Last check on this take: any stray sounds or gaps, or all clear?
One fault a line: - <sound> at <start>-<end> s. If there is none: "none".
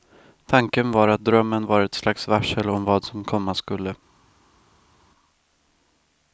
none